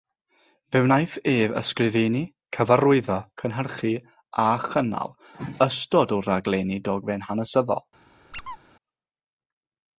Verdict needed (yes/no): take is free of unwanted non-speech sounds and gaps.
no